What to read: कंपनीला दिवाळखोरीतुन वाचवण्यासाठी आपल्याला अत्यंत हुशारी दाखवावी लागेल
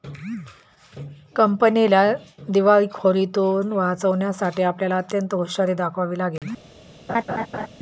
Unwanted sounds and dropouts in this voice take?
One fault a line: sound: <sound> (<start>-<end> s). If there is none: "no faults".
sound: dropout (6.4-6.4 s)
sound: laugh (7.1-7.7 s)